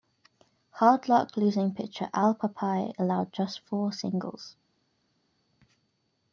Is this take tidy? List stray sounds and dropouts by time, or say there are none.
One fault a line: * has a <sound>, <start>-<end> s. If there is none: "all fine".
all fine